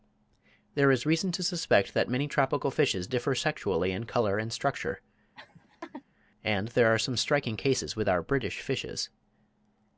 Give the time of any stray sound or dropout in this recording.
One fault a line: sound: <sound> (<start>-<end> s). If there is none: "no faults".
sound: laugh (5.4-6.0 s)